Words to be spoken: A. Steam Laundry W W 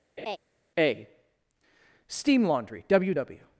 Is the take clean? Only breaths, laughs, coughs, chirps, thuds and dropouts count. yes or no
no